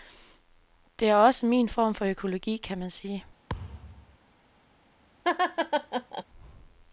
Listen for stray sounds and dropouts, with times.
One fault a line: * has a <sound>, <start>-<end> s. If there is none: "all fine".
* has a thud, 3.5-4.2 s
* has a laugh, 5.2-6.2 s